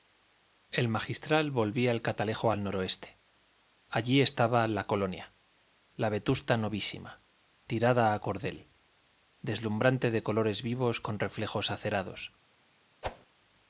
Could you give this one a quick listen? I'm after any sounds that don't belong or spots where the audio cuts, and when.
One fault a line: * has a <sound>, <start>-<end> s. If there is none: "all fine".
* has a whoosh, 13.0-13.3 s